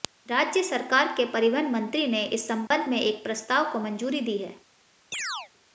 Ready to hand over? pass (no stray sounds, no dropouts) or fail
fail